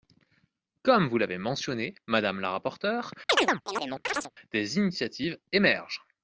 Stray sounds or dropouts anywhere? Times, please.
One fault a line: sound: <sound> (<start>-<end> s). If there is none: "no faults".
sound: chirp (3.3-4.3 s)